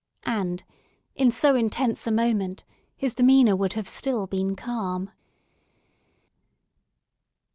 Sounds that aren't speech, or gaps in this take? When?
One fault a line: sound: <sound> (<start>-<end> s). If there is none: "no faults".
no faults